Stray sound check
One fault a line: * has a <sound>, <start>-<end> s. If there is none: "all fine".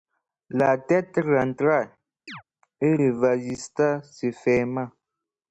* has a chirp, 2.3-2.4 s